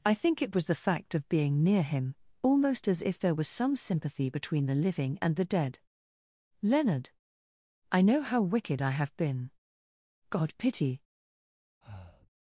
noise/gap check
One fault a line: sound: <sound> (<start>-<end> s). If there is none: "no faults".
sound: breath (11.8-12.3 s)